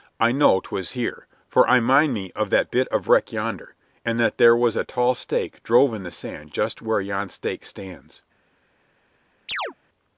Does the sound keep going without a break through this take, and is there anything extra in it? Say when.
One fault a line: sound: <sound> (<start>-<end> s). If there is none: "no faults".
sound: chirp (9.5-9.7 s)